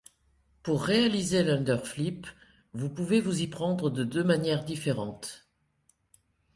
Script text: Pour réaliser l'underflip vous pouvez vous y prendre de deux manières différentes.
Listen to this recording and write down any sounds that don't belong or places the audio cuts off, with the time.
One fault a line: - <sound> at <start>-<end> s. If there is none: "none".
none